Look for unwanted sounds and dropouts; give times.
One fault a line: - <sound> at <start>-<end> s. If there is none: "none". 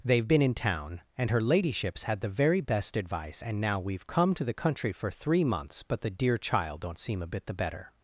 none